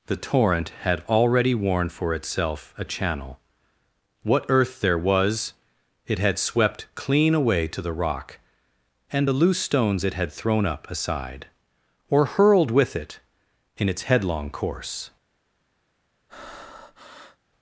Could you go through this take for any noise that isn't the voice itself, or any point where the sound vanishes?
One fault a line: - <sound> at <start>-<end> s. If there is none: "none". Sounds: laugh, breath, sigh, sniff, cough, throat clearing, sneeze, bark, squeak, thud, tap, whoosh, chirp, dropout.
- breath at 16.3-17.4 s